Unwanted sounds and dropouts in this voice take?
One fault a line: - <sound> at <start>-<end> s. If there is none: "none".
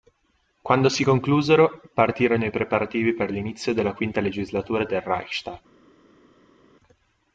none